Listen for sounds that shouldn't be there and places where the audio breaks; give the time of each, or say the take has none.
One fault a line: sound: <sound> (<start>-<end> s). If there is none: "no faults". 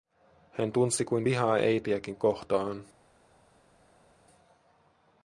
no faults